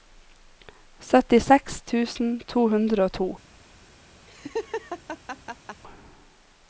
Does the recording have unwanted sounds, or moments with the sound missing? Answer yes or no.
yes